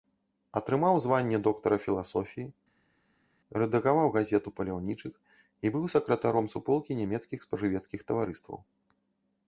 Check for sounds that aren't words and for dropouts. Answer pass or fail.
pass